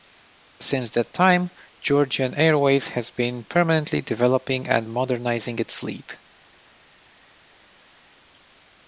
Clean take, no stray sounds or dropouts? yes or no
yes